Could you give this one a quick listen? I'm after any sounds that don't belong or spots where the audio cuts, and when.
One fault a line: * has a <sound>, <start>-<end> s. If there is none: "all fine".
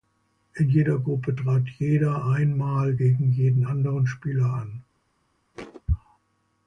* has a thud, 5.5-5.8 s